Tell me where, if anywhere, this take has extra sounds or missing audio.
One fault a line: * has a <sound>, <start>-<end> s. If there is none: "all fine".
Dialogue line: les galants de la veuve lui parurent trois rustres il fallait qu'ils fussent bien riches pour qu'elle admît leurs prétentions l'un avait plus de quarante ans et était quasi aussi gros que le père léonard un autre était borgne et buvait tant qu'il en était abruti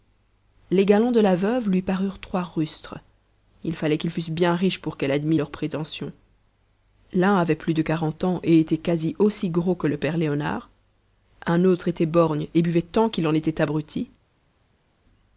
all fine